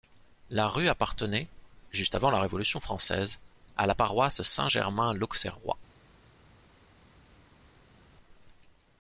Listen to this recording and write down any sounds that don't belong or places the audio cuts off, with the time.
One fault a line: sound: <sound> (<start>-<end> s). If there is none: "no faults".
no faults